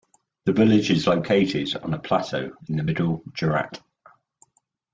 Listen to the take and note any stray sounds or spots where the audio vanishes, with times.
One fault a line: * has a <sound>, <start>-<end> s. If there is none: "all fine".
all fine